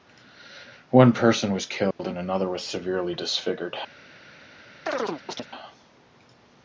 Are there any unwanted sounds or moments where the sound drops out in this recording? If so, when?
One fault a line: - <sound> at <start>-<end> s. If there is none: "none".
- dropout at 1.9-2.0 s
- chirp at 4.9-5.5 s